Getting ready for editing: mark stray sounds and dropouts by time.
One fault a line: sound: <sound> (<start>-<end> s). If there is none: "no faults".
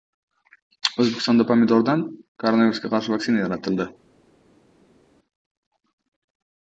no faults